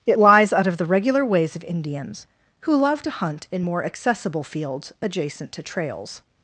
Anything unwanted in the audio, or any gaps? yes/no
no